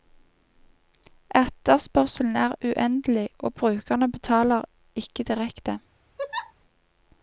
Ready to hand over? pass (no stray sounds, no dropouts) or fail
fail